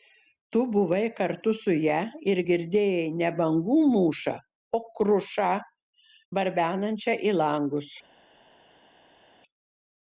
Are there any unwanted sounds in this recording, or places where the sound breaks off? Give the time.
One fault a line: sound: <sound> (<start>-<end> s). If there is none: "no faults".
no faults